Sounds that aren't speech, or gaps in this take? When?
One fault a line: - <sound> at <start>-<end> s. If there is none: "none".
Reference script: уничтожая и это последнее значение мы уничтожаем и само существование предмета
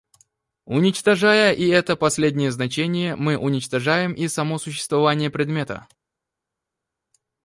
none